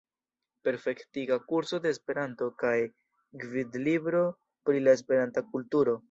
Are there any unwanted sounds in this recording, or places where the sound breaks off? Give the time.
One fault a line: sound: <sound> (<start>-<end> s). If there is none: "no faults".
no faults